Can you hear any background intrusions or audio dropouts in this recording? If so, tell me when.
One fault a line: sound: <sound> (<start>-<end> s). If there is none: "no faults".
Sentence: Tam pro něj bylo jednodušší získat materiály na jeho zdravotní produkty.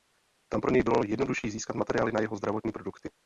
no faults